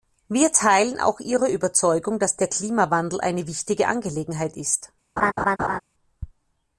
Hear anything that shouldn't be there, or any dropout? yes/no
yes